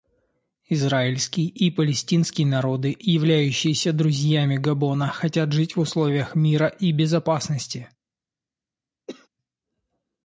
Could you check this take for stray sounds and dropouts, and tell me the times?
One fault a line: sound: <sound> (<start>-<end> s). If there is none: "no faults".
sound: cough (9.1-9.3 s)